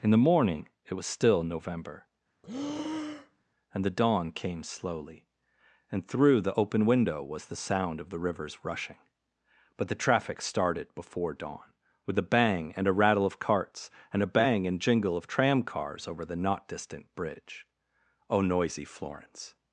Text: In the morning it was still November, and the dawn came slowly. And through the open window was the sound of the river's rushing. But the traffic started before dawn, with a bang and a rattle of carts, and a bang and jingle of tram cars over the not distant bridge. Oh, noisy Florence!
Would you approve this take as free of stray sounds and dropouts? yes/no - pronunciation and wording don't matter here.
no